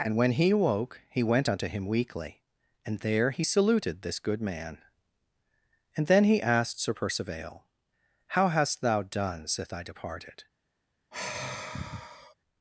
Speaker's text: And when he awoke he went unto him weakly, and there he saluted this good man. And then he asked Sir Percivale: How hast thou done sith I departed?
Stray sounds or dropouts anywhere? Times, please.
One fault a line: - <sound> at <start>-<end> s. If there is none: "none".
- sigh at 11.1-12.3 s